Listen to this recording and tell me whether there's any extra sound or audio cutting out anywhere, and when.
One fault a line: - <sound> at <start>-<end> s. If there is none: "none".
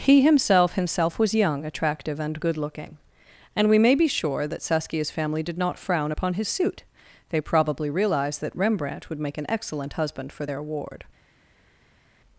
none